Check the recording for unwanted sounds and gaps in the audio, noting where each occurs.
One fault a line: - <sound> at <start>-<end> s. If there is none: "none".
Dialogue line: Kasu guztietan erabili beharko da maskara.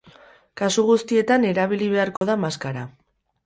- dropout at 2.2-2.2 s